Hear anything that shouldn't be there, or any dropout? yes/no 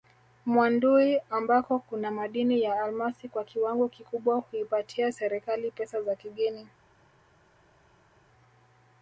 no